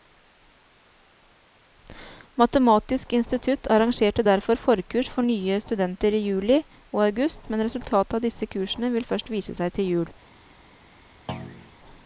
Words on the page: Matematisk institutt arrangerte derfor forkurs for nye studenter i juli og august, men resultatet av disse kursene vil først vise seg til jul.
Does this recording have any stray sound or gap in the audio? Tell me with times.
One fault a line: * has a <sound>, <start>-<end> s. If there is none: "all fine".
* has a thud, 11.3-11.7 s